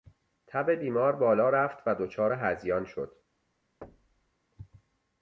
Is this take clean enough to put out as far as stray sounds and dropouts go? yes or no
no